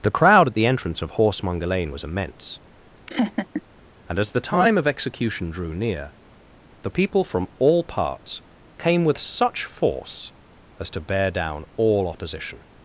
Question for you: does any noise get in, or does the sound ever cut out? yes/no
yes